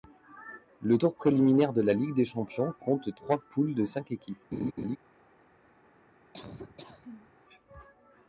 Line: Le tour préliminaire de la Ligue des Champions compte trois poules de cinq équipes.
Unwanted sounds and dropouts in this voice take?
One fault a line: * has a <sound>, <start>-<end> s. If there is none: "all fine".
* has a laugh, 4.5-5.0 s
* has a laugh, 6.3-7.3 s